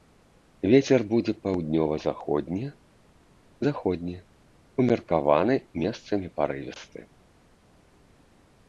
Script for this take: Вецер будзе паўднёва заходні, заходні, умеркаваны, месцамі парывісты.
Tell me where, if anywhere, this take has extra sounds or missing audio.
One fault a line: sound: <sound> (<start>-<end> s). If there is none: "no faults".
no faults